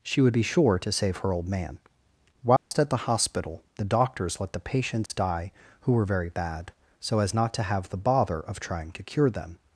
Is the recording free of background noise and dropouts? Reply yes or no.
no